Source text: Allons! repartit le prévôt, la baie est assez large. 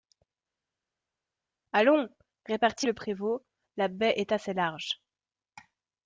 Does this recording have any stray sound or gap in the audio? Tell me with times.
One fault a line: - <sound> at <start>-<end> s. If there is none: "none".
none